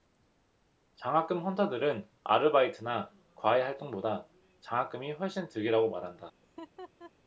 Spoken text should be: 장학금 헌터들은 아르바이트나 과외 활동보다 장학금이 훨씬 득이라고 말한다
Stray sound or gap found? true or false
true